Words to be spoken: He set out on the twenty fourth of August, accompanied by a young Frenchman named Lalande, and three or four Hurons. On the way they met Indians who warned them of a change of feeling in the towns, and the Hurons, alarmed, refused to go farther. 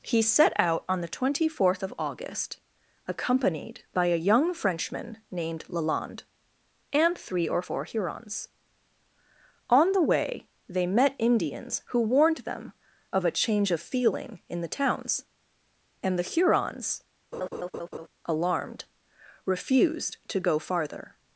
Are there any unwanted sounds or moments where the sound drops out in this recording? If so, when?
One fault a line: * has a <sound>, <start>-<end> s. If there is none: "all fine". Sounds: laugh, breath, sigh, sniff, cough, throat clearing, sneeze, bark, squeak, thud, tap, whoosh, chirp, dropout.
* has a laugh, 17.3-18.1 s